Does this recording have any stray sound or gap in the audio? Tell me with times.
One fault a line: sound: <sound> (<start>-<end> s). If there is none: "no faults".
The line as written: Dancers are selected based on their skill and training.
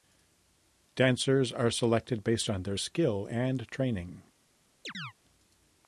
sound: chirp (4.8-5.1 s)